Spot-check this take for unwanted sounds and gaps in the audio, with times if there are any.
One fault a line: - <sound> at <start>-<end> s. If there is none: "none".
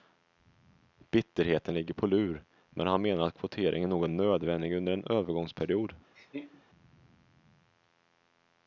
- laugh at 6.1-6.6 s